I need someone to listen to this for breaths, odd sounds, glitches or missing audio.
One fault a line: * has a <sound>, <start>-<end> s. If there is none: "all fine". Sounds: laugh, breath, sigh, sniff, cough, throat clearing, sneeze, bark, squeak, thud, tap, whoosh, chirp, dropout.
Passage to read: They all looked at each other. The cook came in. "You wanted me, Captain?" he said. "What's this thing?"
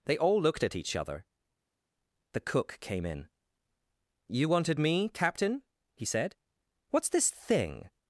all fine